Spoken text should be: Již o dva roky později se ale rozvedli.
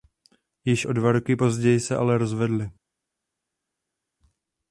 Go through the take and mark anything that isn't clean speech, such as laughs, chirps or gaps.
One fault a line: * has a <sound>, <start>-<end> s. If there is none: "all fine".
all fine